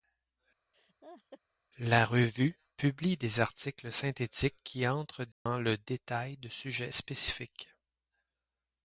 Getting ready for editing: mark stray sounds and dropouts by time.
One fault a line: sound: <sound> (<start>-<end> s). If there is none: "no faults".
sound: laugh (0.7-1.4 s)
sound: dropout (5.3-5.5 s)